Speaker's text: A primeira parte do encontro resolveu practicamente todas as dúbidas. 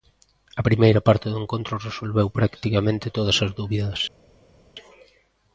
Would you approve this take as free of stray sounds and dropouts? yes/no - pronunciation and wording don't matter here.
yes